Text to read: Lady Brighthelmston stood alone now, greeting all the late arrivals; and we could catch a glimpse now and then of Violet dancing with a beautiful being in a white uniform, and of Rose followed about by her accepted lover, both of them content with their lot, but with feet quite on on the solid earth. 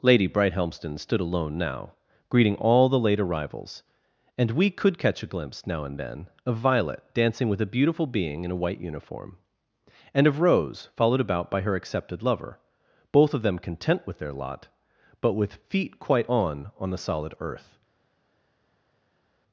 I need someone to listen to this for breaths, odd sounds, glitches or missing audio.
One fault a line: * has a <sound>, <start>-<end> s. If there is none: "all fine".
all fine